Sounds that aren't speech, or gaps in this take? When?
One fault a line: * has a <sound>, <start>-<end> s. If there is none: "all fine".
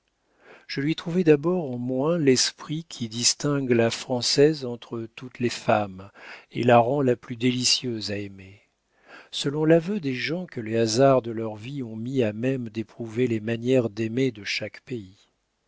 all fine